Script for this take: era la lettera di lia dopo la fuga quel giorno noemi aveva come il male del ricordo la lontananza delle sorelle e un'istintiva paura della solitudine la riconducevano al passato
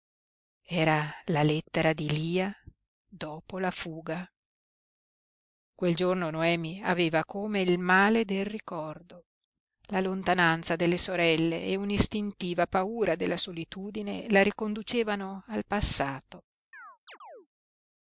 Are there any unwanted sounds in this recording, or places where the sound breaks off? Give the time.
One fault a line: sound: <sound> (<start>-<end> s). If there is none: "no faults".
sound: chirp (16.7-17.5 s)